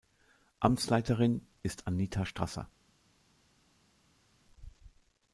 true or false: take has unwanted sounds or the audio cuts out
false